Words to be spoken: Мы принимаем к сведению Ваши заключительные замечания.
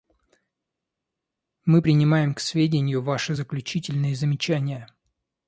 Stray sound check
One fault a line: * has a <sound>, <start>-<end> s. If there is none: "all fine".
all fine